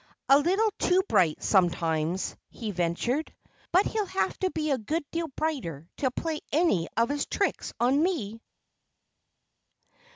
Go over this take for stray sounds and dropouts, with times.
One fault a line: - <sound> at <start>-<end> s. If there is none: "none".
none